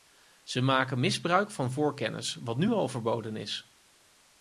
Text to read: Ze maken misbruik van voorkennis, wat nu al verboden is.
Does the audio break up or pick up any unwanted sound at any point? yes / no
no